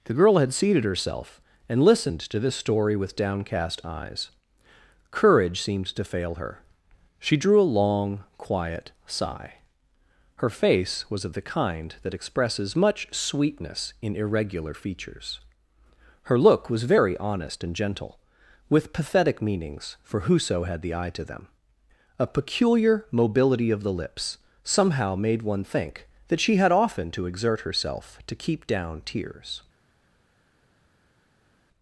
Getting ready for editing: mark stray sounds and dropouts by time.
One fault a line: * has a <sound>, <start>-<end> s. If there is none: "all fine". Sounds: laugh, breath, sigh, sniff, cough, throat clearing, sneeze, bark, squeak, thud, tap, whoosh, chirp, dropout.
all fine